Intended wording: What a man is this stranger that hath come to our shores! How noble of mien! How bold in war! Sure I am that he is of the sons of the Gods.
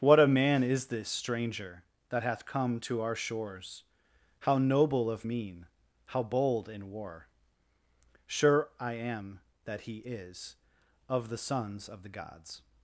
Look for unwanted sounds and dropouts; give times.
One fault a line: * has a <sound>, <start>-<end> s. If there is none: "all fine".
all fine